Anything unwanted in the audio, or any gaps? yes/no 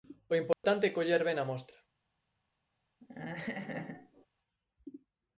yes